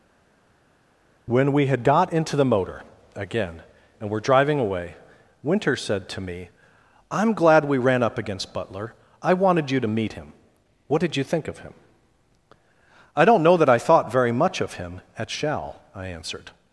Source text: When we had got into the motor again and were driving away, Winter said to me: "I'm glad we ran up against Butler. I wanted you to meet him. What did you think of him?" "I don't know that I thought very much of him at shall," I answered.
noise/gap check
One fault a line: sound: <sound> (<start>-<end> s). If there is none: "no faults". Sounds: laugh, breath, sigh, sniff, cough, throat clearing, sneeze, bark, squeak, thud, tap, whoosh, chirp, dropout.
no faults